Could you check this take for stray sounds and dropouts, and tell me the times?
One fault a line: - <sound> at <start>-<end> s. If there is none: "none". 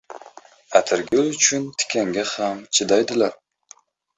- dropout at 1.1-1.1 s